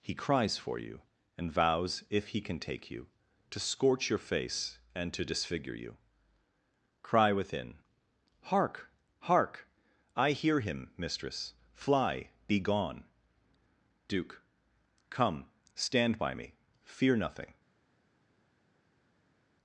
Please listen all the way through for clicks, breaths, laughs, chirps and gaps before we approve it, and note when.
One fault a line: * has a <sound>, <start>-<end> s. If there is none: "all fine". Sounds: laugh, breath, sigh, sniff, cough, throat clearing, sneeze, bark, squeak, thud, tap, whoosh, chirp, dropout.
all fine